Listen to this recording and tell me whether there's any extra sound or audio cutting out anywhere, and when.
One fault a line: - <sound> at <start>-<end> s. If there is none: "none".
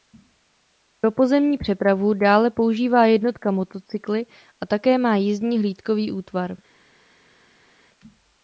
none